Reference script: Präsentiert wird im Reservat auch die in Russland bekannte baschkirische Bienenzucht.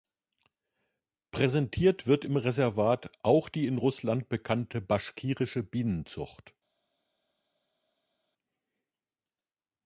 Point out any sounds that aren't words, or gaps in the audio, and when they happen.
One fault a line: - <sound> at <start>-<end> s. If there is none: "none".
none